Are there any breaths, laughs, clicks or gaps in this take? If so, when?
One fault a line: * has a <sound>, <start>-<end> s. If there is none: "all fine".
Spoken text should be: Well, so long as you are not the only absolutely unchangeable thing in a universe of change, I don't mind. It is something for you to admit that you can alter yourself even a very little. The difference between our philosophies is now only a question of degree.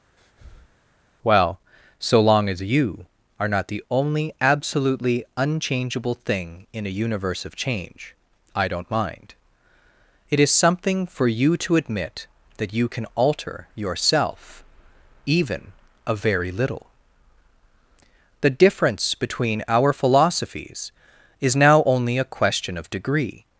* has a breath, 0.2-0.8 s